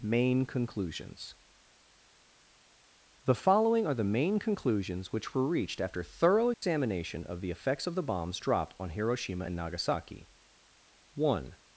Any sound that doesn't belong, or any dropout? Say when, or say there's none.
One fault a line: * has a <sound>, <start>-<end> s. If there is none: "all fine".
* has a dropout, 6.5-6.6 s